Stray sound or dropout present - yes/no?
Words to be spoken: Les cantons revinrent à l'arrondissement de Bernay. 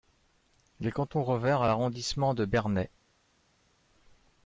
no